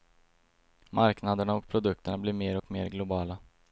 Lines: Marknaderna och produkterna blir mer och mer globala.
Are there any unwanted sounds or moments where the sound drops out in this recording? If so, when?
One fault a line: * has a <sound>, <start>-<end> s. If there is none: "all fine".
all fine